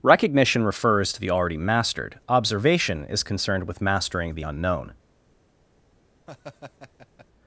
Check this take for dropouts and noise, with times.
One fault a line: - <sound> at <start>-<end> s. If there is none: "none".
- laugh at 6.3-7.3 s